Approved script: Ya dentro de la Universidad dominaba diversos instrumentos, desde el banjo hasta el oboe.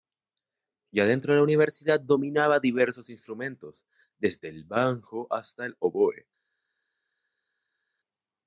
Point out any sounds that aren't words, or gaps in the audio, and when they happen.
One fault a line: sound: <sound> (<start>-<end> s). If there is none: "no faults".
no faults